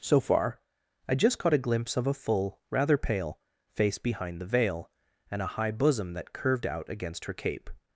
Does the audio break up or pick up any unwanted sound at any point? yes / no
no